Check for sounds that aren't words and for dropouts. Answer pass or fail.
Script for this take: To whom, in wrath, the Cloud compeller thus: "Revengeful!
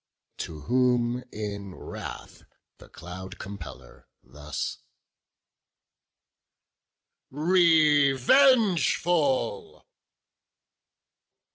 pass